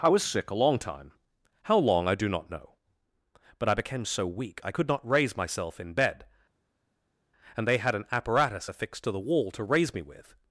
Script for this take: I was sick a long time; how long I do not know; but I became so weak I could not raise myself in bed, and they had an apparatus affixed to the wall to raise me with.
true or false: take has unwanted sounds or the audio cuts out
false